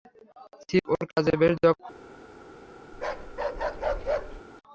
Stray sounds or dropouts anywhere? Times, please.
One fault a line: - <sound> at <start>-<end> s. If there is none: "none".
- bark at 2.9-4.4 s